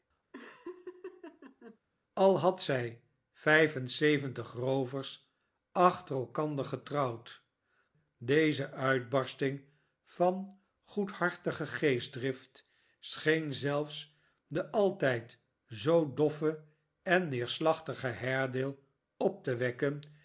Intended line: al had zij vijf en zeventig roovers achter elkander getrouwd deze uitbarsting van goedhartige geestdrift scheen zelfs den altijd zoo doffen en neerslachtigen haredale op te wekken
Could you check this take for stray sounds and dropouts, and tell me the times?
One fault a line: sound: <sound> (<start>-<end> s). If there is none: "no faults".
sound: laugh (0.3-1.8 s)